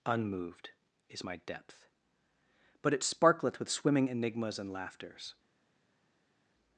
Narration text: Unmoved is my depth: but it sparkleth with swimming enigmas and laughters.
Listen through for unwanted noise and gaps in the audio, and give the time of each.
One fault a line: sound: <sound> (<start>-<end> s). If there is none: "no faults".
no faults